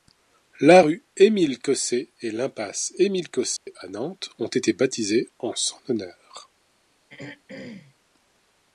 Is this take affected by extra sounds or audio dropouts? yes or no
yes